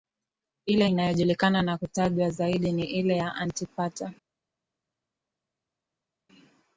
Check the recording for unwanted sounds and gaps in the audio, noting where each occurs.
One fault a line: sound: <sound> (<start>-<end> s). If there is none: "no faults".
no faults